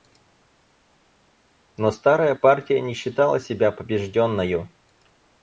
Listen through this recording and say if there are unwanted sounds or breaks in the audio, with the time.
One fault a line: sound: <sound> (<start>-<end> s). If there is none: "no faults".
no faults